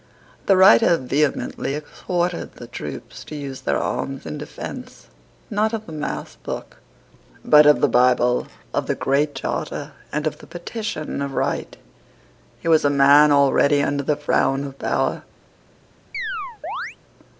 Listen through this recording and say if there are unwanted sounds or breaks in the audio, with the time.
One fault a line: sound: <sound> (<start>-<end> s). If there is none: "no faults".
sound: chirp (16.1-17.0 s)